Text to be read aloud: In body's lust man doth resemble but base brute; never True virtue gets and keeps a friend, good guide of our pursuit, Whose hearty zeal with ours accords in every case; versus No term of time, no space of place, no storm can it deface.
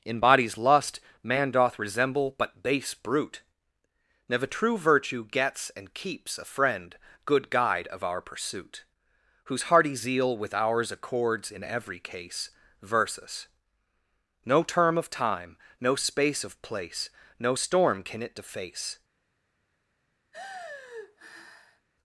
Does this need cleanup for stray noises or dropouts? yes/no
yes